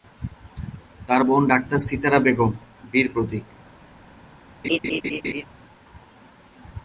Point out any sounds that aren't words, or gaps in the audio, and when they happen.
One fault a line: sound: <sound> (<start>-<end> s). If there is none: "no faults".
sound: laugh (4.6-5.4 s)